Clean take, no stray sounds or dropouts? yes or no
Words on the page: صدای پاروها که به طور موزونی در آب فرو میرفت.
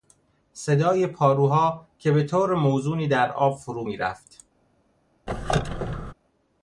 no